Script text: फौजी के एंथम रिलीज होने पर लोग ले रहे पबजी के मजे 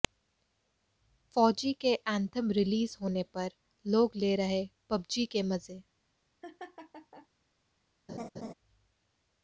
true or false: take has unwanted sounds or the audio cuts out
true